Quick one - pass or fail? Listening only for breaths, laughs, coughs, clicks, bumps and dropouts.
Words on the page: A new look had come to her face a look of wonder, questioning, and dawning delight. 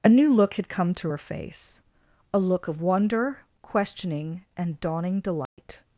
fail